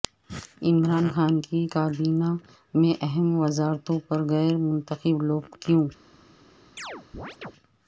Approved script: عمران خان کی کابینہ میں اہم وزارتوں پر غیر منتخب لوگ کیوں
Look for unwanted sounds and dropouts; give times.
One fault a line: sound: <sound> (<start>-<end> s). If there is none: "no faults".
sound: chirp (6.8-7.5 s)